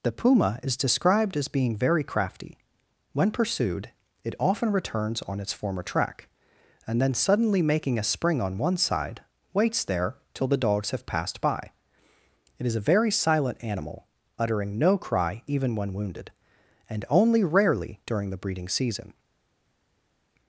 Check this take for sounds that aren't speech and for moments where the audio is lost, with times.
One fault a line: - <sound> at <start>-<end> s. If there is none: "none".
none